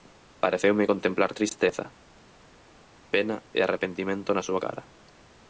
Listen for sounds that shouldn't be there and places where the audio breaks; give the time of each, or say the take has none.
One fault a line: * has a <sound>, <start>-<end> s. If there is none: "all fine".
all fine